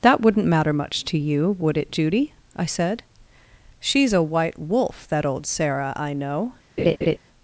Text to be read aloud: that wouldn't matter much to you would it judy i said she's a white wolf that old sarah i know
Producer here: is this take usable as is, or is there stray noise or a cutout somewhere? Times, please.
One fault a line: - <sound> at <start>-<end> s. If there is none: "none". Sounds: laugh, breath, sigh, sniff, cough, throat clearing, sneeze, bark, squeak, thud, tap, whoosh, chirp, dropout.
- laugh at 6.8-7.2 s